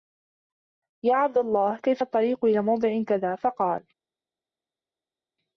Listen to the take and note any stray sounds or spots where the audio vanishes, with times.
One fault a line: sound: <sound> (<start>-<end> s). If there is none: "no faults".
no faults